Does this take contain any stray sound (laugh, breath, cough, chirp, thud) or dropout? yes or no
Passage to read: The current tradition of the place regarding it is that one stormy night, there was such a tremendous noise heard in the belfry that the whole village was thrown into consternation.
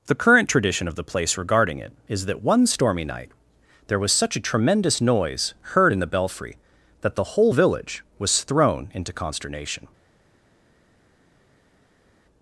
no